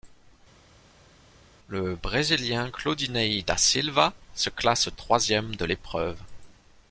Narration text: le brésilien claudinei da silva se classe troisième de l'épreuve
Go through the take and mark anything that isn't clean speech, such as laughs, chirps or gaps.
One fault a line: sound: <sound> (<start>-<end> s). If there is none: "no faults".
no faults